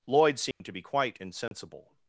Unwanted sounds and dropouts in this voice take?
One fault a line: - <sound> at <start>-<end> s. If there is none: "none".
- dropout at 0.5-0.6 s
- dropout at 1.5-1.5 s